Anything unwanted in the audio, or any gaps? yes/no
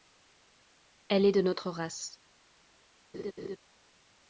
yes